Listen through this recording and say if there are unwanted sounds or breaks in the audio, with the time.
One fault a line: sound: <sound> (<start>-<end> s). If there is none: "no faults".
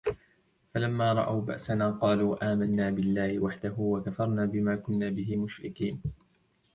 no faults